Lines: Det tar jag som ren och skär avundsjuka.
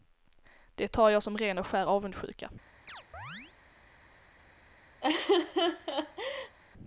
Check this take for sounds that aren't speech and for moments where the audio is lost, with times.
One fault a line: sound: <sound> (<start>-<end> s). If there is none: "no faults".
sound: chirp (2.9-3.5 s)
sound: laugh (5.0-6.6 s)